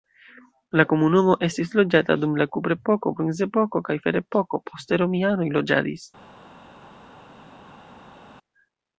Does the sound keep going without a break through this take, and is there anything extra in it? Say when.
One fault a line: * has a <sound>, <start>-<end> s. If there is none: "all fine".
all fine